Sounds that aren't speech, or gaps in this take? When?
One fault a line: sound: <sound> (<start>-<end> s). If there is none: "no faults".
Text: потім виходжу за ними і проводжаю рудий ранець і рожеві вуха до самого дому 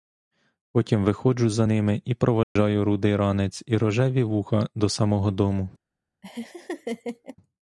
sound: dropout (2.4-2.6 s)
sound: laugh (6.2-7.4 s)